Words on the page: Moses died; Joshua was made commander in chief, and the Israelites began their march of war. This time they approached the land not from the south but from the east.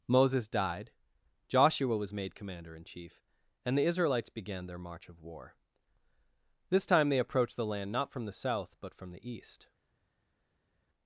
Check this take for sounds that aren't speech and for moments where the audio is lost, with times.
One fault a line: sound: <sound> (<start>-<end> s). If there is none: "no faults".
no faults